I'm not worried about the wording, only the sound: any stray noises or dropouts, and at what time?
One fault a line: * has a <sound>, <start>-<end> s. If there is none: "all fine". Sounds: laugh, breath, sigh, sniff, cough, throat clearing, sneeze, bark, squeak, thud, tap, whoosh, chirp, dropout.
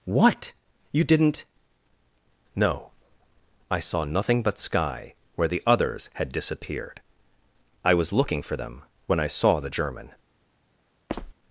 * has a squeak, 11.1-11.3 s